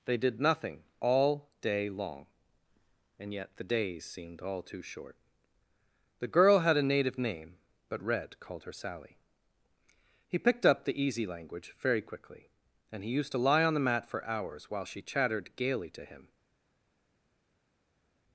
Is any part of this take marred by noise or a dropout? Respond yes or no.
no